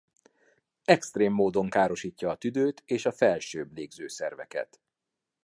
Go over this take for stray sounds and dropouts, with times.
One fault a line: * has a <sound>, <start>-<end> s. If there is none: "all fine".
all fine